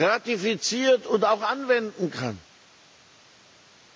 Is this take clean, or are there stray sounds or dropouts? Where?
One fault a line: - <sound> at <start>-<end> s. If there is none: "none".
none